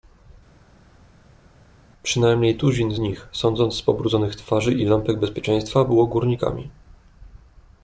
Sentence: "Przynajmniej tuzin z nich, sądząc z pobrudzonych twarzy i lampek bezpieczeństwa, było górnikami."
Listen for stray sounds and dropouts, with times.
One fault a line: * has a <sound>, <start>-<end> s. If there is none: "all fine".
all fine